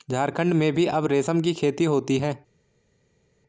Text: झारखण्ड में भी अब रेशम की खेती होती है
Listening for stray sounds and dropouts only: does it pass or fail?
pass